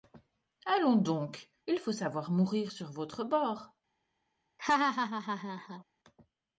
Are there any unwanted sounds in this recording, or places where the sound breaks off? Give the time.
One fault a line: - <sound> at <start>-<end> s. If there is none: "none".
- laugh at 4.6-5.8 s